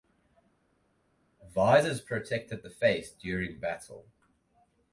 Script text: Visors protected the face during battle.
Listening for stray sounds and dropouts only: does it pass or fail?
pass